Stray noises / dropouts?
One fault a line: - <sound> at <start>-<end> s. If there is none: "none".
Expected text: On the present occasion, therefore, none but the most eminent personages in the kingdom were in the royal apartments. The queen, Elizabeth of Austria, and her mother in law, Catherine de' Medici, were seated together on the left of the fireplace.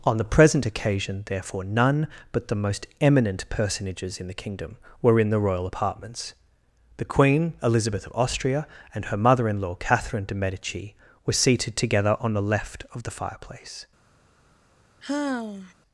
- sigh at 15.0-15.7 s